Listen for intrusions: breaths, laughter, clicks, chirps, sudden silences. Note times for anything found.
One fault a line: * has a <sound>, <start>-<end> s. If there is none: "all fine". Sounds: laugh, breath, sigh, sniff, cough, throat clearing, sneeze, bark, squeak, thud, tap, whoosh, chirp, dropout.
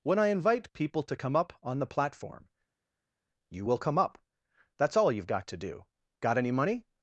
all fine